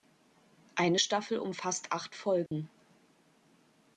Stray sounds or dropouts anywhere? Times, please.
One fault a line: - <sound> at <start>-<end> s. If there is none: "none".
- dropout at 2.5-2.5 s